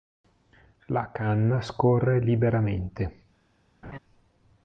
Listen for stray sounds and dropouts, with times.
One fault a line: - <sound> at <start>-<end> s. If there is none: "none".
- laugh at 3.8-4.0 s